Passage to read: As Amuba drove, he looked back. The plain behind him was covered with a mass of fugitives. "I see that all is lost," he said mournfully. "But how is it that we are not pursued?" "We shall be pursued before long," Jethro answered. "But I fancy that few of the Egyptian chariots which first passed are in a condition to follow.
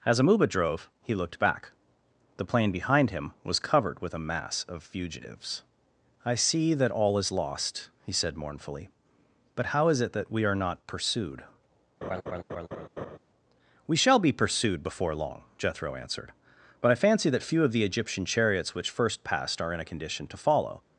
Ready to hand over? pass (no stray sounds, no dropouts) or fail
fail